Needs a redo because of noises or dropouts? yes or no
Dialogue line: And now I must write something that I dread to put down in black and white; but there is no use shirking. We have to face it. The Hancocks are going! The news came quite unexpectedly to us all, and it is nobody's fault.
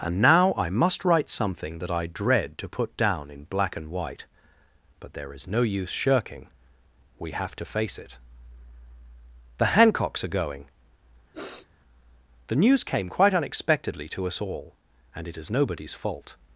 yes